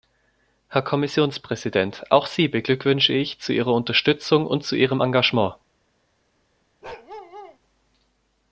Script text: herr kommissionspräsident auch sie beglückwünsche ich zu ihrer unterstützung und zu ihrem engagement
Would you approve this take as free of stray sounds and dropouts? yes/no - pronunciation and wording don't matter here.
no